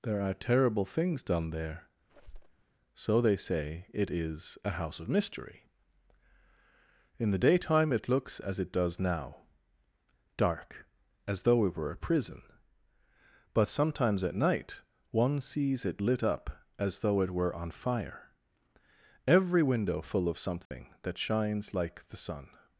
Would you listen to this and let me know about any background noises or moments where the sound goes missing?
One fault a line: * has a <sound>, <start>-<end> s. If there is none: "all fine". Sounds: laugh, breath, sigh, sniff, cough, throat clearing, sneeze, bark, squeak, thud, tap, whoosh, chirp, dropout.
* has a squeak, 2.1-2.6 s
* has a dropout, 20.7-20.7 s